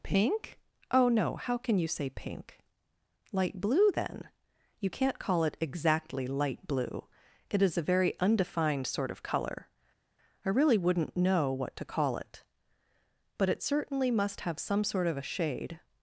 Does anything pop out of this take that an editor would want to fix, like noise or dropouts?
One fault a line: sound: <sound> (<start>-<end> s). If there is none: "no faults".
no faults